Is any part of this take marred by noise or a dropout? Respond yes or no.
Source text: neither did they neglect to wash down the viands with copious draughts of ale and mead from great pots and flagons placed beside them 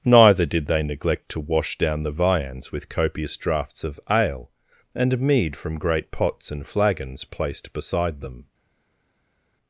no